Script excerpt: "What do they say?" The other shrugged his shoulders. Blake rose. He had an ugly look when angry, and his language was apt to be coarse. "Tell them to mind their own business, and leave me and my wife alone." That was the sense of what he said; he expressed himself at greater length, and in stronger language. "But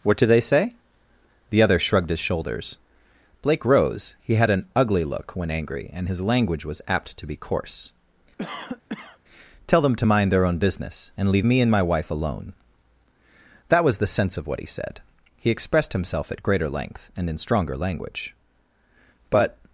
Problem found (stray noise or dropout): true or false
true